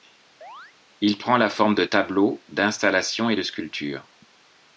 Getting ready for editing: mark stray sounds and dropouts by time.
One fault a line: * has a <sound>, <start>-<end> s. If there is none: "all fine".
* has a chirp, 0.4-0.7 s